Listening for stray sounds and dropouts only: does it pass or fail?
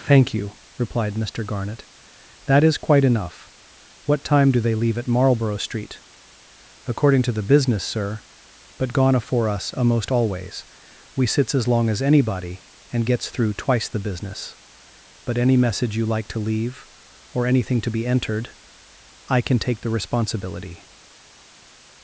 pass